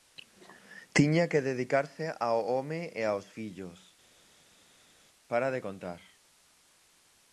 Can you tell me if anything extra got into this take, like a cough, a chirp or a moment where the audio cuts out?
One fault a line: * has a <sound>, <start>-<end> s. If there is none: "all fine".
all fine